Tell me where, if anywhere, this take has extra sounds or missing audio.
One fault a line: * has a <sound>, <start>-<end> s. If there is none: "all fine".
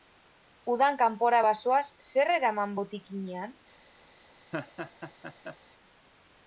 * has a laugh, 4.5-5.6 s